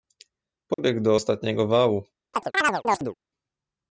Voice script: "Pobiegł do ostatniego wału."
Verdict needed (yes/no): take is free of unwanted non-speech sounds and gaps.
no